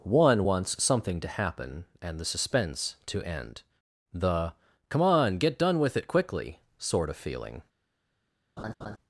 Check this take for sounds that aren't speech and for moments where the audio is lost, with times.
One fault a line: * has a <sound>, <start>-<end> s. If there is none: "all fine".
* has a laugh, 8.6-9.0 s